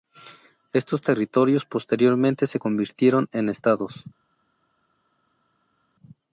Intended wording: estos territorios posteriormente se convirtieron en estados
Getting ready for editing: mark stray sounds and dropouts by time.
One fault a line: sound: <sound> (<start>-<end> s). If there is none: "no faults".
no faults